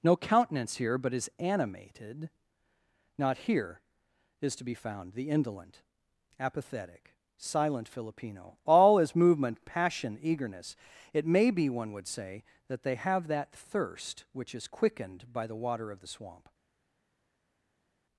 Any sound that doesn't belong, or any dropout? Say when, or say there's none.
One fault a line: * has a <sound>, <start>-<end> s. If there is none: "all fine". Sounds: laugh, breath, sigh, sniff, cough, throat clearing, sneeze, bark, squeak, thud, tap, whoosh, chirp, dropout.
all fine